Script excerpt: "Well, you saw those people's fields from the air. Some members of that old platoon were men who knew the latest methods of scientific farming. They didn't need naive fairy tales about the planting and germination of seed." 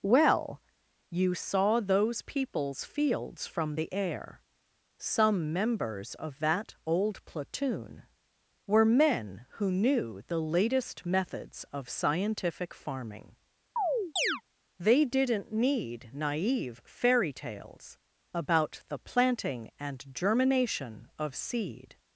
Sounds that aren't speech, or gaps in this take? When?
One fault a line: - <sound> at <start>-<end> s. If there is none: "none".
- chirp at 13.8-14.4 s